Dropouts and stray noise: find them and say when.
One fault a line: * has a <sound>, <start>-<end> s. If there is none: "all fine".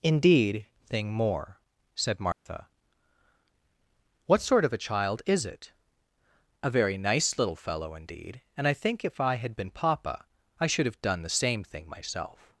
* has a dropout, 2.3-2.5 s